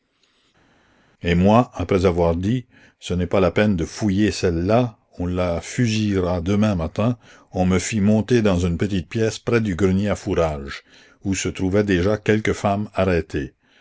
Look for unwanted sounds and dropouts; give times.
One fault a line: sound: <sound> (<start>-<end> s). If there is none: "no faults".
no faults